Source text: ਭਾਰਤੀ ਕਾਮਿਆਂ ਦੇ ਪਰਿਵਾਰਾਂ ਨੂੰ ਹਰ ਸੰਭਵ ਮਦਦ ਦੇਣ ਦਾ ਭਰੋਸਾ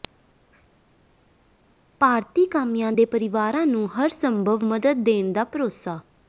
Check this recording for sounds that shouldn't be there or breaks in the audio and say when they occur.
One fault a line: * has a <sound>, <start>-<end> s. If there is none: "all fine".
all fine